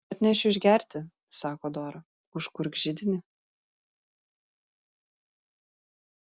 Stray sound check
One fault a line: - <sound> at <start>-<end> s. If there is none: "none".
none